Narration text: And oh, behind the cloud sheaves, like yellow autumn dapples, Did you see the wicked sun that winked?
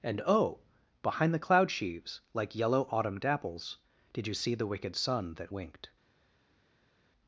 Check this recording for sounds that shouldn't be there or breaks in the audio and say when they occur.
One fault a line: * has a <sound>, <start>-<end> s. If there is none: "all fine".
all fine